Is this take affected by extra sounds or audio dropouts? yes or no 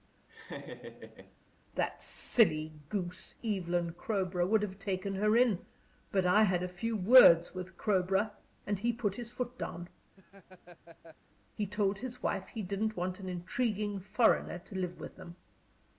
yes